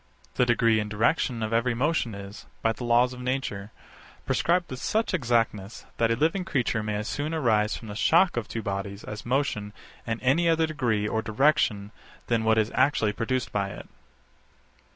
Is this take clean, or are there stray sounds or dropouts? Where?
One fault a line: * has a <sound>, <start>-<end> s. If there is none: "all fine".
all fine